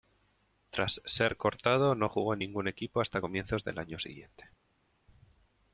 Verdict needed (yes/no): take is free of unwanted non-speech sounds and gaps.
yes